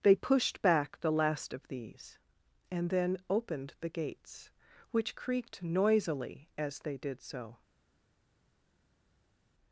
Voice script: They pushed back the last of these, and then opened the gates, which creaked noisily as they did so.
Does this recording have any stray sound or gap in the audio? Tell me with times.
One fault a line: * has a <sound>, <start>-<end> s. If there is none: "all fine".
all fine